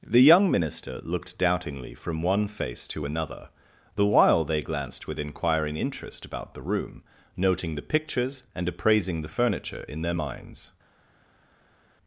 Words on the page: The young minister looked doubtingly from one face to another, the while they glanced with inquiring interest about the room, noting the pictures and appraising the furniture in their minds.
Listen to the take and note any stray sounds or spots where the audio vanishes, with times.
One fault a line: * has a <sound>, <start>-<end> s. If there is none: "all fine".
all fine